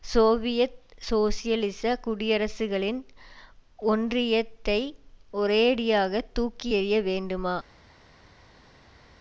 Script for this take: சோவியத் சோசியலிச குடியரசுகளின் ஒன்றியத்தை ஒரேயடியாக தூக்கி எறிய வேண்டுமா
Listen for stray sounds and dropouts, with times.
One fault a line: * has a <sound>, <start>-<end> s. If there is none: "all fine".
all fine